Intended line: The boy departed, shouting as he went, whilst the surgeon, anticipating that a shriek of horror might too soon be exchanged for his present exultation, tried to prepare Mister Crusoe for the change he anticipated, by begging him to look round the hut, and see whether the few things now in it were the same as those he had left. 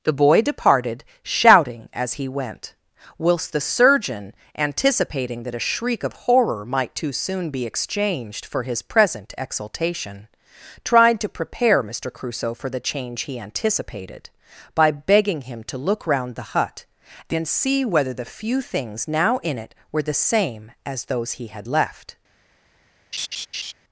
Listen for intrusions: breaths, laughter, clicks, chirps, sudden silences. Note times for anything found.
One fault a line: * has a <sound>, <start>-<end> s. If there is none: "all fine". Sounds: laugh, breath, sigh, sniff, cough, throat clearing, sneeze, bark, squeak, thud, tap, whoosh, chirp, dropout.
* has a laugh, 23.1-23.7 s